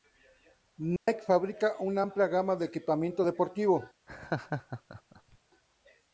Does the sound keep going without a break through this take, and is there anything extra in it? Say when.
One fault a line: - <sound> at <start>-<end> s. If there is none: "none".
- dropout at 1.0-1.1 s
- laugh at 4.1-5.4 s